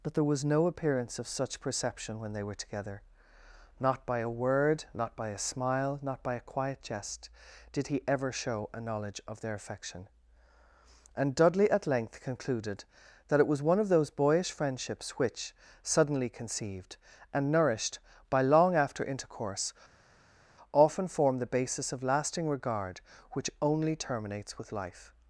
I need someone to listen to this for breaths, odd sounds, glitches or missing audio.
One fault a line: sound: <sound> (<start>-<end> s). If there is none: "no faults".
no faults